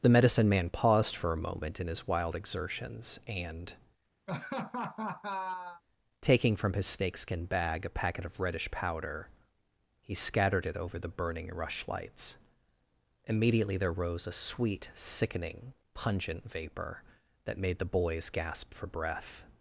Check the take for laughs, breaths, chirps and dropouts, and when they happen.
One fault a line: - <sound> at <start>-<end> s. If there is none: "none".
- laugh at 4.3-5.8 s